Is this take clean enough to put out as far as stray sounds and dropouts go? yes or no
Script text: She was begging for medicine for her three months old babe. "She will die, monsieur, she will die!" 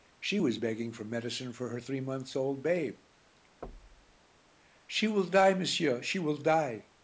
no